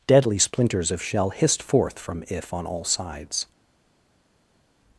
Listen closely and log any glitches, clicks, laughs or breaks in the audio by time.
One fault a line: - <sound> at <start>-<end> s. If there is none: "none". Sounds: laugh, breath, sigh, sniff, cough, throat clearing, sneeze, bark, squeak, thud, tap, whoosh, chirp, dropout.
none